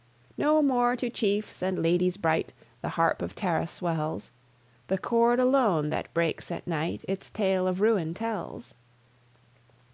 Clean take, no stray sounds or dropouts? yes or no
yes